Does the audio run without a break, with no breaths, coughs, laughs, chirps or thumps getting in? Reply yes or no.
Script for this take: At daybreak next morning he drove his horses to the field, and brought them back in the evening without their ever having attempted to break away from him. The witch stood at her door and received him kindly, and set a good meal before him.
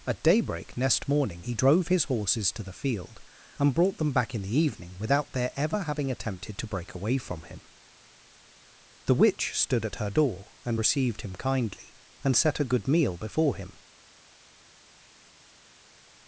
yes